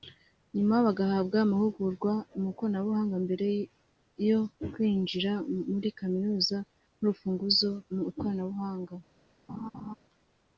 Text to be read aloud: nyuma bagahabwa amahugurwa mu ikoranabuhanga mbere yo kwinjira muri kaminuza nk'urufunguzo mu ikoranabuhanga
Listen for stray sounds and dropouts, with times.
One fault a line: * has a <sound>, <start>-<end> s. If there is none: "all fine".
* has a laugh, 9.5-9.9 s